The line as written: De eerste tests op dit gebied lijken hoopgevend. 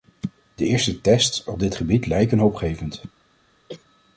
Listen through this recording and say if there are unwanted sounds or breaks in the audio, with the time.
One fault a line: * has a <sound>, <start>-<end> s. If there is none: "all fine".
* has a cough, 3.7-3.8 s